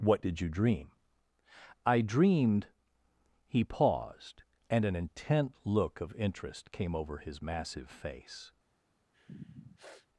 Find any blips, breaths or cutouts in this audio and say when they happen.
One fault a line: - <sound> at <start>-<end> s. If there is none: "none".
- sniff at 9.1-10.1 s